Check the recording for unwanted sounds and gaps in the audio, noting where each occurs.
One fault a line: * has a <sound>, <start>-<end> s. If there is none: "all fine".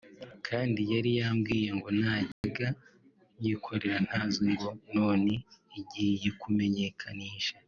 * has a dropout, 2.3-2.4 s